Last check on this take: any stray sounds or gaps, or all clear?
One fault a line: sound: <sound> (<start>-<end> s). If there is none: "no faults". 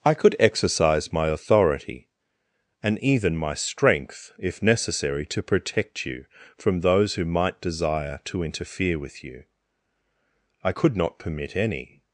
no faults